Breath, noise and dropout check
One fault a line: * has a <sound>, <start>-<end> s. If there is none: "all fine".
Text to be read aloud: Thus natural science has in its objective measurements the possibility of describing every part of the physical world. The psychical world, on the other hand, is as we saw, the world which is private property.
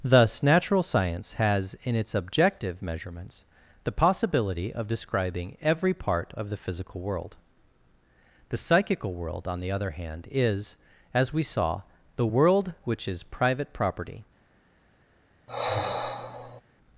* has a sigh, 15.5-16.6 s